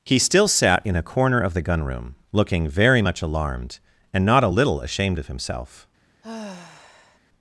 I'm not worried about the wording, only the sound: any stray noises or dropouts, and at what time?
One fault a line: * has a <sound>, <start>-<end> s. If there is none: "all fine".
* has a sigh, 6.2-7.2 s